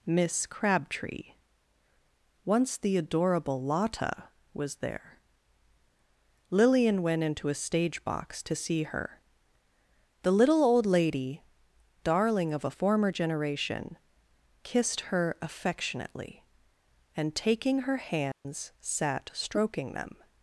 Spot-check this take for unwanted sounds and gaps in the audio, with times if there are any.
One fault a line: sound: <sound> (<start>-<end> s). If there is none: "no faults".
sound: dropout (18.3-18.5 s)